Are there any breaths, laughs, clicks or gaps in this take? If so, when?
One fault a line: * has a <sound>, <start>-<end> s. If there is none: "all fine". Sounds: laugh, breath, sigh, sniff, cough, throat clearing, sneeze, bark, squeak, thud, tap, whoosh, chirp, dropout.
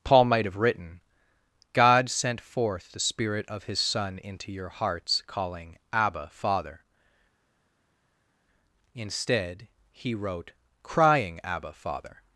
all fine